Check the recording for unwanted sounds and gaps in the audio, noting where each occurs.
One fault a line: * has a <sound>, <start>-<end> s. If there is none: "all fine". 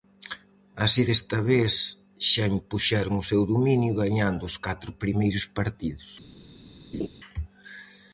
* has a laugh, 6.9-7.1 s